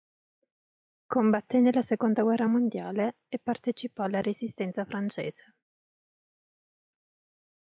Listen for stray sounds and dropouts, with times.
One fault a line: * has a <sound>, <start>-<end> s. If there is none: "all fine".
all fine